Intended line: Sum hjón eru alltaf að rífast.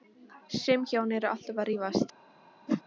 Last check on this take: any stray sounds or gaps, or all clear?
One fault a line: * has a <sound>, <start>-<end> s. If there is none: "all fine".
* has a whoosh, 2.7-2.8 s